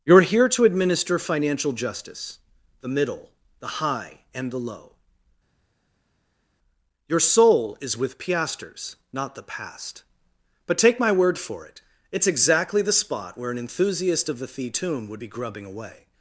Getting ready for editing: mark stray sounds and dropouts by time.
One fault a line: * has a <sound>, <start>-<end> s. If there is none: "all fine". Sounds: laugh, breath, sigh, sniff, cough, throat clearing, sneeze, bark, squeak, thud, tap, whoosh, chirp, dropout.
all fine